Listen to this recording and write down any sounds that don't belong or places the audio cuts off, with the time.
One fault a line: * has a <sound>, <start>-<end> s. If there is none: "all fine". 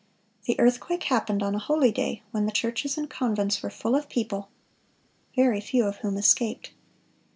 all fine